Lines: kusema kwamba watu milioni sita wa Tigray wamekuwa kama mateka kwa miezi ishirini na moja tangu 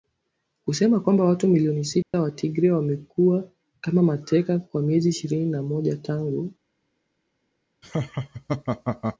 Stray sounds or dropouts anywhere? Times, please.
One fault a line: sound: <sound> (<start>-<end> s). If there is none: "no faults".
sound: dropout (2.0-2.1 s)
sound: laugh (7.8-9.2 s)